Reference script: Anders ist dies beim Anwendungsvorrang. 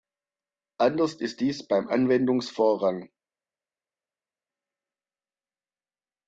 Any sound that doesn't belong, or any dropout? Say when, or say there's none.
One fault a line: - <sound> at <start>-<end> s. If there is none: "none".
none